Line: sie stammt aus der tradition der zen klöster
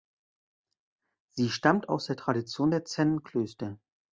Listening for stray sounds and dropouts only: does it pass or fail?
pass